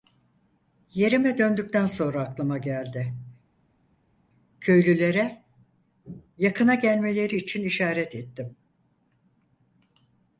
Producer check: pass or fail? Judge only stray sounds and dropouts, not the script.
pass